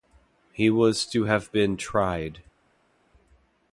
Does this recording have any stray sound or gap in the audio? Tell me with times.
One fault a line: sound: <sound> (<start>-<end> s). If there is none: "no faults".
no faults